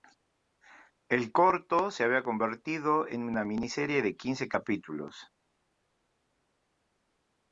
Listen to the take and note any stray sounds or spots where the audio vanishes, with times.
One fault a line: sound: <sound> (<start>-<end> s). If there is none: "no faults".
no faults